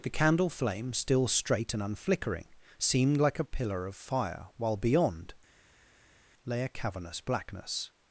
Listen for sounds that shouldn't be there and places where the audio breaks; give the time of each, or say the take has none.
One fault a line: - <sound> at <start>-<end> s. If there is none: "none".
none